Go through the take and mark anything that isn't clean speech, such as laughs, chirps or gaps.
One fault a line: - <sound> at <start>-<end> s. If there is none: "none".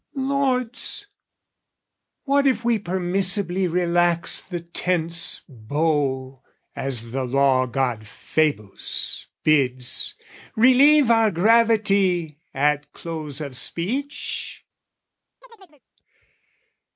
- chirp at 15.4-15.8 s